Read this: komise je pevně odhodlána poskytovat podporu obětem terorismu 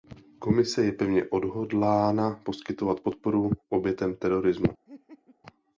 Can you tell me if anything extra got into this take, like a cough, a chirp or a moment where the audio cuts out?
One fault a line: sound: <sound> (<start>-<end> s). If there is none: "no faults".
sound: laugh (4.9-5.4 s)